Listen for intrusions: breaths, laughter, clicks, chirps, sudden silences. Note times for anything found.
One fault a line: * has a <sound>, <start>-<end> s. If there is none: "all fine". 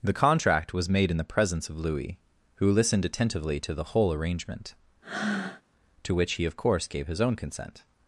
* has a breath, 5.0-5.6 s